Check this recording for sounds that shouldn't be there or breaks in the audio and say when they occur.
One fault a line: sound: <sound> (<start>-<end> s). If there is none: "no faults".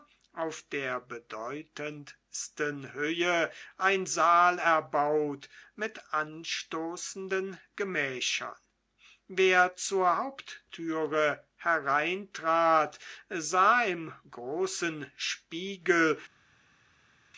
no faults